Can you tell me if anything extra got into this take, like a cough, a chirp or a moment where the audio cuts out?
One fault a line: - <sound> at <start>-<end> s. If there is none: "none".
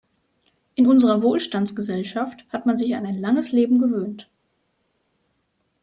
none